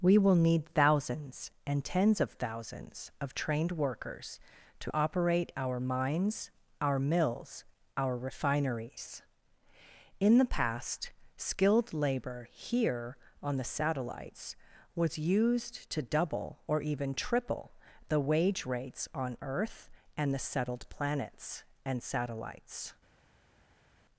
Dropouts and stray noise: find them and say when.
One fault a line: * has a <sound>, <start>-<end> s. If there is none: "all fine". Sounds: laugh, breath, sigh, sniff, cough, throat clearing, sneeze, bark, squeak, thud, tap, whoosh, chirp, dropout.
all fine